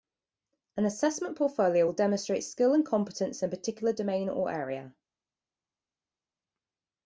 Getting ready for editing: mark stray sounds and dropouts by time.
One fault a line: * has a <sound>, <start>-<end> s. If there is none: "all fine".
all fine